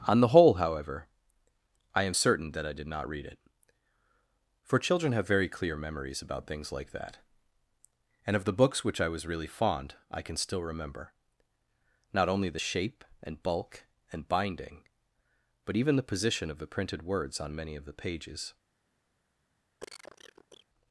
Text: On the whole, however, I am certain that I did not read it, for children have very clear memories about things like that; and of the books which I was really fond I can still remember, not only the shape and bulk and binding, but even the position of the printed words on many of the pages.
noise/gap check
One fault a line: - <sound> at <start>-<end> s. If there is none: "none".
- cough at 19.8-20.7 s